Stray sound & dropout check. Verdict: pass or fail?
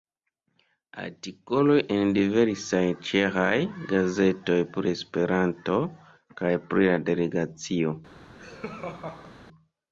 fail